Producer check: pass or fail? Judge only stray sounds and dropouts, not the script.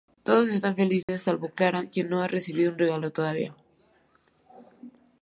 fail